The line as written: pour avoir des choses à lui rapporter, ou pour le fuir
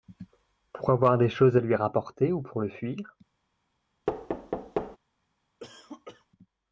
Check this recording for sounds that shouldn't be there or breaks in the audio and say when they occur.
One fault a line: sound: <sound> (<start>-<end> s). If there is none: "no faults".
sound: thud (4.1-5.0 s)
sound: cough (5.6-6.3 s)